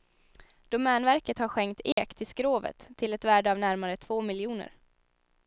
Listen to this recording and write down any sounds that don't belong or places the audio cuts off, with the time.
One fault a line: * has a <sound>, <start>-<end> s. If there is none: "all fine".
* has a dropout, 1.9-2.0 s